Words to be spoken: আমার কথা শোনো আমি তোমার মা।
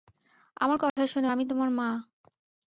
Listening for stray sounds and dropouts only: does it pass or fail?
fail